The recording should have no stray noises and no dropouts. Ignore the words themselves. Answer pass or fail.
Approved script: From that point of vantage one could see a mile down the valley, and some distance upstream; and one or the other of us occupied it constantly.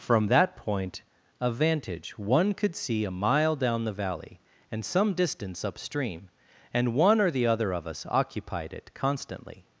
pass